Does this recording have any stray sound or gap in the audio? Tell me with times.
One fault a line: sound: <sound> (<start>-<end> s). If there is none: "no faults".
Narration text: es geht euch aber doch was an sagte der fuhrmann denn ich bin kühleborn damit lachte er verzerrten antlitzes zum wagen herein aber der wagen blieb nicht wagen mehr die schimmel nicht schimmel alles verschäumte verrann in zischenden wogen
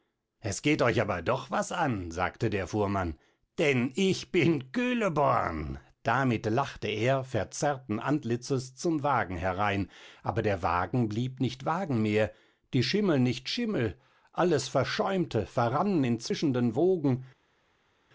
no faults